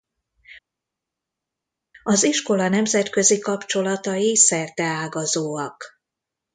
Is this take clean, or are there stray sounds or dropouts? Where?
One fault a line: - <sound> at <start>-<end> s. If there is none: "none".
none